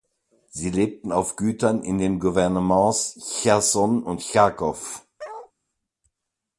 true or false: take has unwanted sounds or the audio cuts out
true